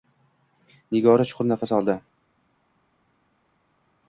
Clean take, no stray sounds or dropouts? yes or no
yes